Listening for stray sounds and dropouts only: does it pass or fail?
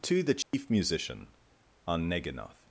fail